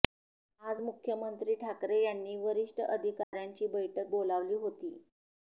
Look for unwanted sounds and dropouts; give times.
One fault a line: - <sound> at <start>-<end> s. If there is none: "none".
- dropout at 3.2-3.3 s